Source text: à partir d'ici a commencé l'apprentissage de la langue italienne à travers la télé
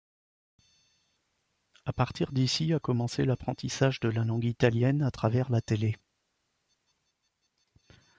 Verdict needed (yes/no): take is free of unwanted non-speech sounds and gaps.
yes